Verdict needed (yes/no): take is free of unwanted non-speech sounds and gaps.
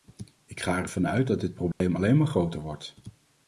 no